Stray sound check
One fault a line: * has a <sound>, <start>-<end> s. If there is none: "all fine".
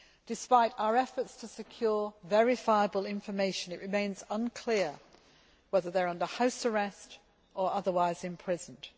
all fine